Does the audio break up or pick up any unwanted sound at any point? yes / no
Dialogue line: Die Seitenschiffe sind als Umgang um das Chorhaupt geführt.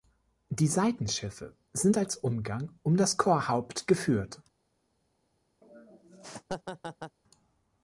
yes